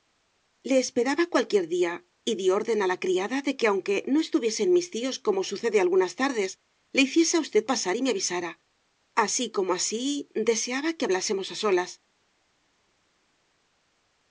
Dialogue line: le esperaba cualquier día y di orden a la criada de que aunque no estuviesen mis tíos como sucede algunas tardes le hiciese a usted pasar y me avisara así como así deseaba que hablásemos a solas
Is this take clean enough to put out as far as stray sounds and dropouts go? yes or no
yes